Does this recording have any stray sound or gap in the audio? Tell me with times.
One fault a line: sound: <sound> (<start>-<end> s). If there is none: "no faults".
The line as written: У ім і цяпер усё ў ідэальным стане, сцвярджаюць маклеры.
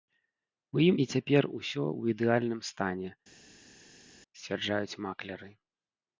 no faults